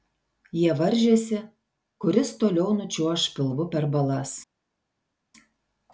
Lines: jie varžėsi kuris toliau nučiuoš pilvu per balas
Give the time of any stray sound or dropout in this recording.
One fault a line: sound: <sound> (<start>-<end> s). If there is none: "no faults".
no faults